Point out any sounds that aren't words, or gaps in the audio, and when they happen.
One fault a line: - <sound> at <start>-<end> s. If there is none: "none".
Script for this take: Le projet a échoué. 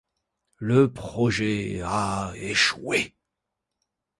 none